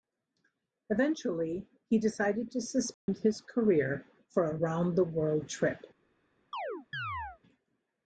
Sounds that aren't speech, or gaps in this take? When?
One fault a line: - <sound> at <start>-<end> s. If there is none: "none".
- dropout at 2.9-3.1 s
- chirp at 6.5-7.4 s